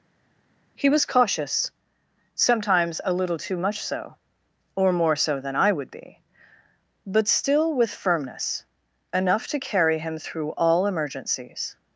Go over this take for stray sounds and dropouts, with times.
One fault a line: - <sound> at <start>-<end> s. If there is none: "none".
none